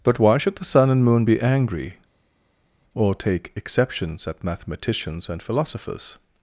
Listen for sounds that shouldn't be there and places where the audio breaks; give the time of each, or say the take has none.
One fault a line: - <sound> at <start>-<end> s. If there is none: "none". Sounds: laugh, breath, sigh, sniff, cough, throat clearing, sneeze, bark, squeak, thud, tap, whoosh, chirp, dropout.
none